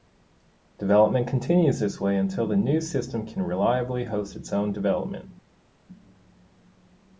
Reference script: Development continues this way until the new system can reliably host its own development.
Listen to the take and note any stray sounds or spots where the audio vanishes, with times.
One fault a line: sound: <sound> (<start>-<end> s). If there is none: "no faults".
no faults